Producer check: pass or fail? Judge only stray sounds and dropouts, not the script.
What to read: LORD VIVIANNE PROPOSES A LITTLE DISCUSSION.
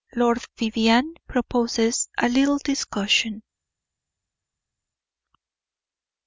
pass